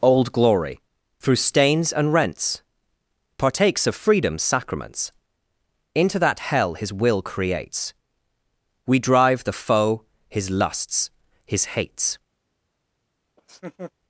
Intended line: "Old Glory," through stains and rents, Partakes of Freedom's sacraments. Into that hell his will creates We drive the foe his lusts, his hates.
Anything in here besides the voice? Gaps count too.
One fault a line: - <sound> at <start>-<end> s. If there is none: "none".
- laugh at 13.4-13.9 s